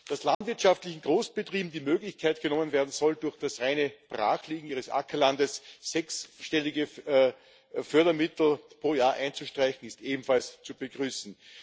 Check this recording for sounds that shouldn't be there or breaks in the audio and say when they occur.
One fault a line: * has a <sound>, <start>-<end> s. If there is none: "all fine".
* has a dropout, 0.3-0.4 s